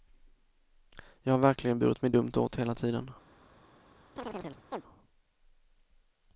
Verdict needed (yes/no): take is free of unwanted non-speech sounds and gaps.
no